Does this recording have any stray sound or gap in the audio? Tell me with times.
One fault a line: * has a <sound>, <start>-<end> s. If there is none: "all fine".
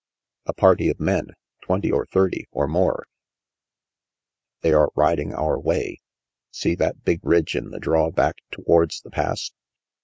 all fine